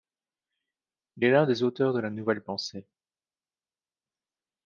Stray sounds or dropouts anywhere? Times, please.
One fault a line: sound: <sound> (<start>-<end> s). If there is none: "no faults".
no faults